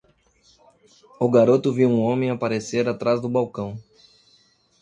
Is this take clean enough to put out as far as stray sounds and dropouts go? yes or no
yes